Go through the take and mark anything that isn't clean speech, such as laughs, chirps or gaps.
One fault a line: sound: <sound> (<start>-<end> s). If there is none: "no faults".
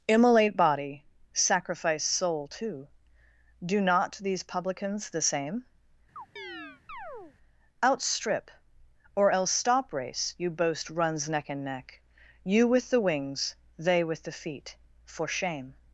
sound: chirp (6.2-7.4 s)